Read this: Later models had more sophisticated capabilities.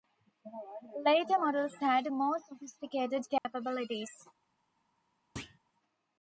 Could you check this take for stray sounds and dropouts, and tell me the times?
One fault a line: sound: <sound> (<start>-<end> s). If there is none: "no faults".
sound: dropout (3.4-3.5 s)
sound: thud (5.4-5.6 s)